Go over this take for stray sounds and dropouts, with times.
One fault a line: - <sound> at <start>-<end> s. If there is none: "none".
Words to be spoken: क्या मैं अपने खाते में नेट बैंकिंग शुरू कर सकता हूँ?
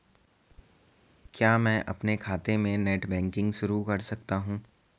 none